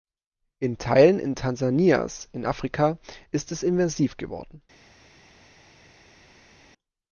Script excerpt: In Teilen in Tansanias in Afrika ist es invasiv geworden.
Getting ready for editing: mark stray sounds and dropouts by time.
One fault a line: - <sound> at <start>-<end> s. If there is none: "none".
none